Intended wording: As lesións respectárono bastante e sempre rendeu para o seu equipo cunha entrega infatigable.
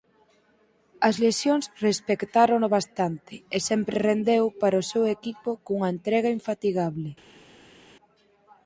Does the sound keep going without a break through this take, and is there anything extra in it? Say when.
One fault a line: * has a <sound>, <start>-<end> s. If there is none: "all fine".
all fine